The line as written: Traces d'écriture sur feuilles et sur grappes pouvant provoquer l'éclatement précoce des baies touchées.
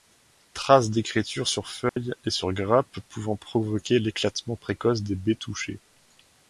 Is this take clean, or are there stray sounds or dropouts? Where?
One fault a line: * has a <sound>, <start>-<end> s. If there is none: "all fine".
* has a dropout, 1.9-2.0 s